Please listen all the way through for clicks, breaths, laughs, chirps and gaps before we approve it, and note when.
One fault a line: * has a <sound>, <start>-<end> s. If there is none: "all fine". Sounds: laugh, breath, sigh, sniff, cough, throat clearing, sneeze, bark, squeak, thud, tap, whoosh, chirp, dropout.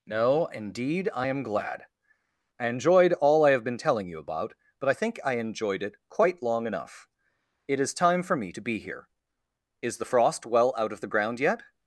all fine